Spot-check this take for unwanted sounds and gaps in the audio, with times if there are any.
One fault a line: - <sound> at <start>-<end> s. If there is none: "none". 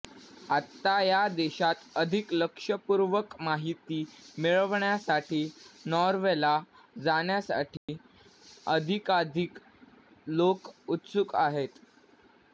- dropout at 7.8-7.9 s